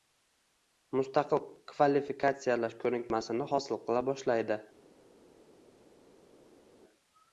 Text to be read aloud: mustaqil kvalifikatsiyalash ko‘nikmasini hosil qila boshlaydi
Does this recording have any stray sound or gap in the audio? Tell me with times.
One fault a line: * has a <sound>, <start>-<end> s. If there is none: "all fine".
all fine